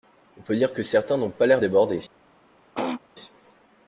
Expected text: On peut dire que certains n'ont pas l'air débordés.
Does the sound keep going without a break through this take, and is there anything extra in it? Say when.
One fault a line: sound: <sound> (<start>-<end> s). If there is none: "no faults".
sound: throat clearing (2.7-3.0 s)